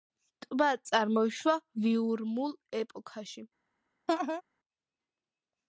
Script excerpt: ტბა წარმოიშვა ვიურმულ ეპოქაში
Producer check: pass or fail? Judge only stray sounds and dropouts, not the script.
fail